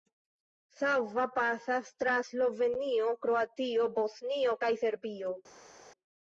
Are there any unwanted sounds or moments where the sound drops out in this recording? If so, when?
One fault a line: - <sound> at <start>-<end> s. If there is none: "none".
none